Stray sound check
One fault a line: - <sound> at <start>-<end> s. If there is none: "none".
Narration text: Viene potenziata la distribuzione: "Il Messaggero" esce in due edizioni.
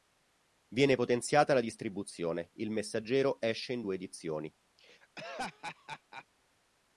- laugh at 4.8-6.3 s